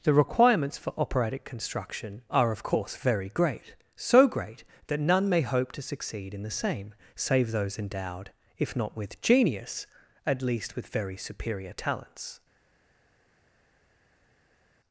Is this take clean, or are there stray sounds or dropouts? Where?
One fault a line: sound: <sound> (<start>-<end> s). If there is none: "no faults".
no faults